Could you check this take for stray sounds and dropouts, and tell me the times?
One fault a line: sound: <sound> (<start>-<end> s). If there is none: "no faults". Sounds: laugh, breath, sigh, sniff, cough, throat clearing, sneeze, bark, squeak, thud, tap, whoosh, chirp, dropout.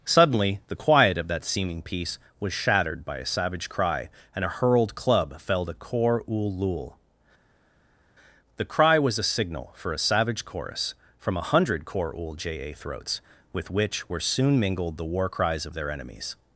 no faults